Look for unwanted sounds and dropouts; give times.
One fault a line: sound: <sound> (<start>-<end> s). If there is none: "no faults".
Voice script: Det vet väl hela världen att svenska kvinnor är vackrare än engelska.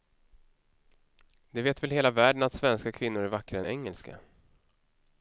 no faults